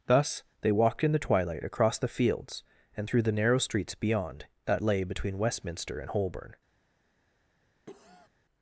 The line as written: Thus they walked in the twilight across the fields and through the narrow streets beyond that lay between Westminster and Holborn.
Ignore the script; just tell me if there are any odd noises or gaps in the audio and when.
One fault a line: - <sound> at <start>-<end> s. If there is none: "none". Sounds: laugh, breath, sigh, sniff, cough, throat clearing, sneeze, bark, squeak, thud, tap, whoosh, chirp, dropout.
- cough at 7.9-8.3 s